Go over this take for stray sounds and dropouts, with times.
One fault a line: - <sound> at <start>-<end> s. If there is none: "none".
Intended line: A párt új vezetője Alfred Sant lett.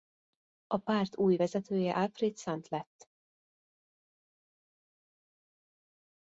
none